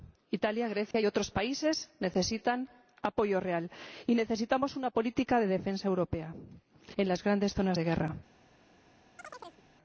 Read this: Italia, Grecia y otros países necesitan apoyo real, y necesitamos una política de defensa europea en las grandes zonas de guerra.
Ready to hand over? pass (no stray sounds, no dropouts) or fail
fail